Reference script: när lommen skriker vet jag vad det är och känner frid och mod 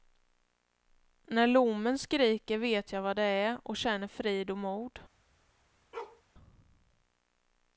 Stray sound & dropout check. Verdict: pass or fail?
fail